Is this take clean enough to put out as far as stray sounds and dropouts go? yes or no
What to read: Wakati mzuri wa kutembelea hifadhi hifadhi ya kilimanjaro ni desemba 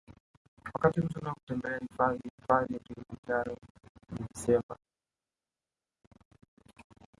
yes